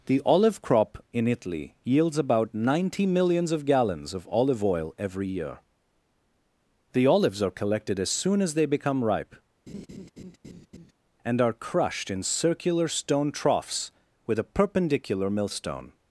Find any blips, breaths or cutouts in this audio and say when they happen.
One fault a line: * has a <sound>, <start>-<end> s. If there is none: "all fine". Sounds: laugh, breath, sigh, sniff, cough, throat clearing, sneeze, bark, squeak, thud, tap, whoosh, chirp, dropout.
* has a laugh, 9.7-10.9 s